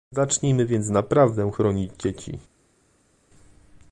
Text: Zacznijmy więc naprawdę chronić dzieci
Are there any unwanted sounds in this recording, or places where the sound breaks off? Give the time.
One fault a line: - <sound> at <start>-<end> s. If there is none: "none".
none